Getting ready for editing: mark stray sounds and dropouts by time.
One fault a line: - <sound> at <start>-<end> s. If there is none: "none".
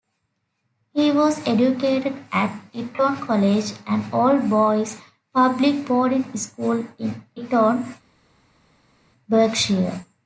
none